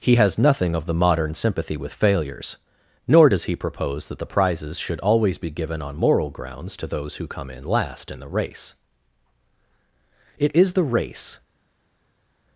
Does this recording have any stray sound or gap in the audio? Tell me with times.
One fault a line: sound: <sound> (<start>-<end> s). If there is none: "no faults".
no faults